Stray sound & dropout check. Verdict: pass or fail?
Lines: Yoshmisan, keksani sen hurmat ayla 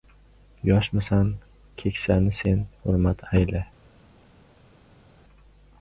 pass